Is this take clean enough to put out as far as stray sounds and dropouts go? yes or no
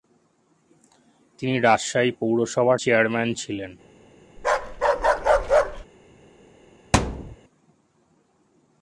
no